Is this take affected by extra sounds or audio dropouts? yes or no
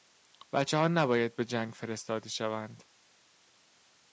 no